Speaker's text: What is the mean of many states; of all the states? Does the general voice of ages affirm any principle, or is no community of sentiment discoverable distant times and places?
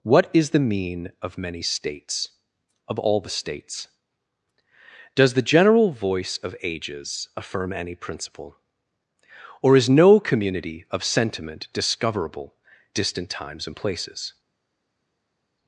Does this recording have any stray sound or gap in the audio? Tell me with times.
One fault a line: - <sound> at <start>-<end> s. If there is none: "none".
none